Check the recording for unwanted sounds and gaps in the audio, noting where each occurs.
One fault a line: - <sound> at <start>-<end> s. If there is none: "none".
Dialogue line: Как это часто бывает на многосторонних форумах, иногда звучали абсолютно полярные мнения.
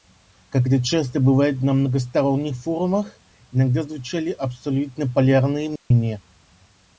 - dropout at 5.8-5.9 s